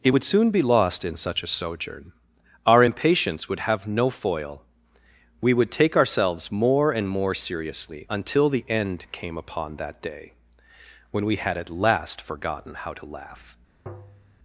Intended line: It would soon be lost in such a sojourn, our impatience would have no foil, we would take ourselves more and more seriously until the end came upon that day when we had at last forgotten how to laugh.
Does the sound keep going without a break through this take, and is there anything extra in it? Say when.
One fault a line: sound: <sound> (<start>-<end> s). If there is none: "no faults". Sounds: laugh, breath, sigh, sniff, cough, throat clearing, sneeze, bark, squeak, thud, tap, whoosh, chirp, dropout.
sound: tap (13.9-14.4 s)